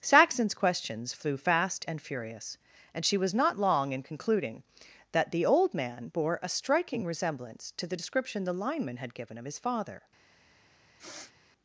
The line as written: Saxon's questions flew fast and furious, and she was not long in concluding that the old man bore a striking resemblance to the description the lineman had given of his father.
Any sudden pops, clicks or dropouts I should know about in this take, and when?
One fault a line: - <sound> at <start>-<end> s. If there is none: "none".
- sniff at 11.0-11.3 s